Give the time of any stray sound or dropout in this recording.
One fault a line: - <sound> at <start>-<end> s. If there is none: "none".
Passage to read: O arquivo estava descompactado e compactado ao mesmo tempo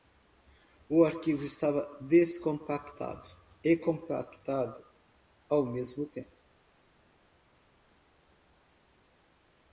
none